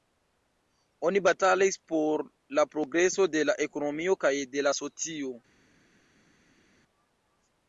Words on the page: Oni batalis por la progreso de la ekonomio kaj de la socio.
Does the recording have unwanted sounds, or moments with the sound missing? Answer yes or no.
no